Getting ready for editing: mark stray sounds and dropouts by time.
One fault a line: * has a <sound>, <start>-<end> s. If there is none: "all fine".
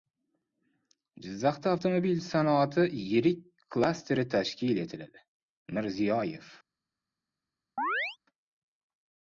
* has a chirp, 7.8-8.2 s